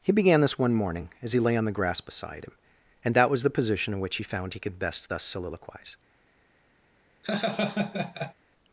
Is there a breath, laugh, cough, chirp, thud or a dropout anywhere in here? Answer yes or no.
yes